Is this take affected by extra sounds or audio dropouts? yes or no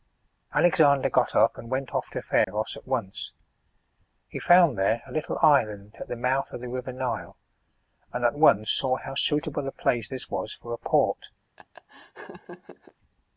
yes